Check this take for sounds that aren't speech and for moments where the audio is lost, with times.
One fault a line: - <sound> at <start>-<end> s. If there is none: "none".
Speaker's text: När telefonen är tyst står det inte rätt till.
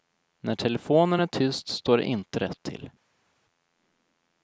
none